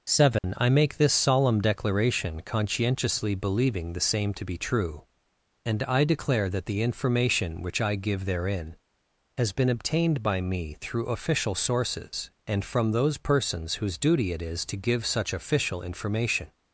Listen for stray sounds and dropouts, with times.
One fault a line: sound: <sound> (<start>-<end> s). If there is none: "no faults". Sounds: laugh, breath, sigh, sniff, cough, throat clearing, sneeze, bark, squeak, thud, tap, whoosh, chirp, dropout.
sound: dropout (0.4-0.4 s)